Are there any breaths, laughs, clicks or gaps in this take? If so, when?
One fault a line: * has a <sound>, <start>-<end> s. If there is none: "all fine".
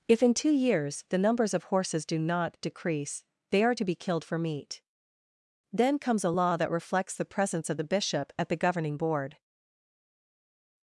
all fine